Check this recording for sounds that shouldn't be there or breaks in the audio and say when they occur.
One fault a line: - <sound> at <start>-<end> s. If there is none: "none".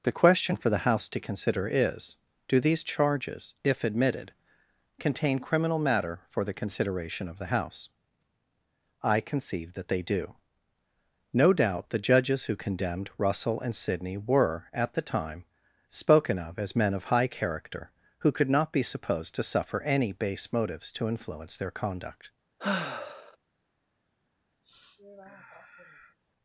- sigh at 22.6-23.4 s
- sniff at 24.6-26.2 s